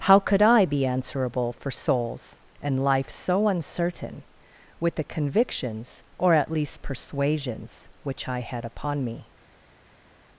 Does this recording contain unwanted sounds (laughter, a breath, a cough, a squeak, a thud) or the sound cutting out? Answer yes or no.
no